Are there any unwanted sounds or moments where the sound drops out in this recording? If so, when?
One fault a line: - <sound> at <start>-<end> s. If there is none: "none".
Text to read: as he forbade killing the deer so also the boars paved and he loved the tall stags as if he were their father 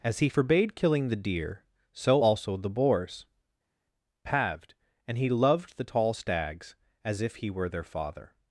none